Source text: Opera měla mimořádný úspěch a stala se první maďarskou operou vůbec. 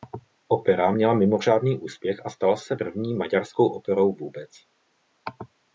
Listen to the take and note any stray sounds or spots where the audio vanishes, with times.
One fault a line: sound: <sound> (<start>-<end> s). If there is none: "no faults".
no faults